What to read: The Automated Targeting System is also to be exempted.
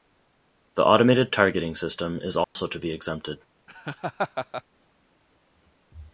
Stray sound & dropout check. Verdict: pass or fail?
fail